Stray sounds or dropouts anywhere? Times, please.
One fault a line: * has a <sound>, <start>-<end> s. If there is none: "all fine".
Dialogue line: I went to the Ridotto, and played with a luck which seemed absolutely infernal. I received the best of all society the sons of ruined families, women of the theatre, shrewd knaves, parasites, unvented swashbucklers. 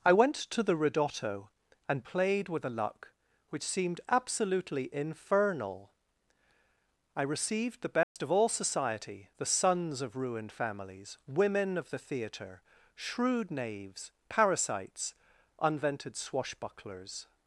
* has a dropout, 8.0-8.2 s